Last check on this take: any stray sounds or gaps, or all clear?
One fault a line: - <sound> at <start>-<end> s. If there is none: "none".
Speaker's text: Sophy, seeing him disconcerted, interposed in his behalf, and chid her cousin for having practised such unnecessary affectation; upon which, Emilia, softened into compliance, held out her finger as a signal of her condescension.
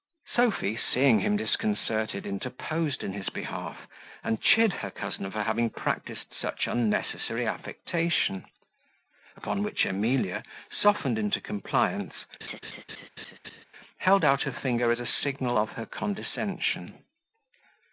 - laugh at 12.4-13.6 s